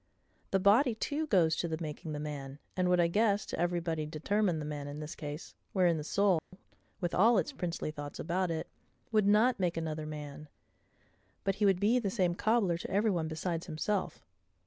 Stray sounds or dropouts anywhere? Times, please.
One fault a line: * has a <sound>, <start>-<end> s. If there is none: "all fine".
* has a dropout, 6.4-6.5 s